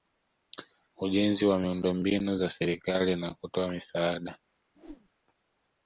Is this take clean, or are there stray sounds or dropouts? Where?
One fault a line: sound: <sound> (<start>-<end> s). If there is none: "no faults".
sound: whoosh (4.7-5.1 s)